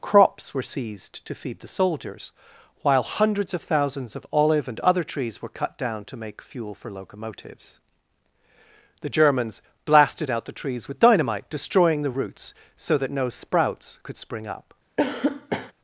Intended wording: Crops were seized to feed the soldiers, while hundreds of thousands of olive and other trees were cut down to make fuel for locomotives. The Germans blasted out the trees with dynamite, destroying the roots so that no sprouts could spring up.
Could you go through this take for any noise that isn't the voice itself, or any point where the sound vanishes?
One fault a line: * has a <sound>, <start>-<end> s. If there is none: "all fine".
* has a cough, 15.0-15.7 s